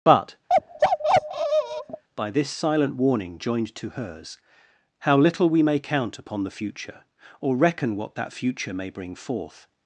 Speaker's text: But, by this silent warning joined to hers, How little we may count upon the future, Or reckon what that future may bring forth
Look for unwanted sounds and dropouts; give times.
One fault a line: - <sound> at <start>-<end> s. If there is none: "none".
- bark at 0.5-2.0 s